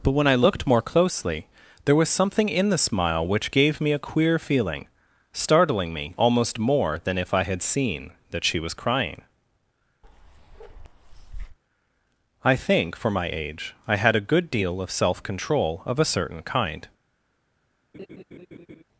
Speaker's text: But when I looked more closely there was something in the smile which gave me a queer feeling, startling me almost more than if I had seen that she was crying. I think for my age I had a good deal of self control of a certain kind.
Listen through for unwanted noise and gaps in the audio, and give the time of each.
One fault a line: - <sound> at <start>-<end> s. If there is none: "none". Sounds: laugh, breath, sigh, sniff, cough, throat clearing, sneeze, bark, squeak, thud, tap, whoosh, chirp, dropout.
- bark at 10.0-11.6 s
- laugh at 17.9-18.8 s